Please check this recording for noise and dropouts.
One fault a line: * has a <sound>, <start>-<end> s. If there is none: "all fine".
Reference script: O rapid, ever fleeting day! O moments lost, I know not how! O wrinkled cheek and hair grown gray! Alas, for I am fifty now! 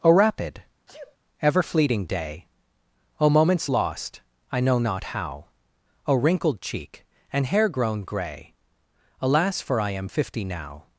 * has a sneeze, 0.9-1.2 s